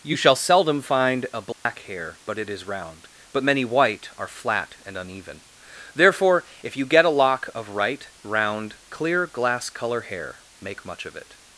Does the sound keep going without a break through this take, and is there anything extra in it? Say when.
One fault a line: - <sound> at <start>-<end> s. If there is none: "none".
- dropout at 1.5-1.7 s